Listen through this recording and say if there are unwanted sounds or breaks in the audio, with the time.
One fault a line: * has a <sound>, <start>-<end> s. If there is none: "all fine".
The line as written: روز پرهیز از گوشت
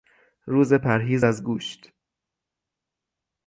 all fine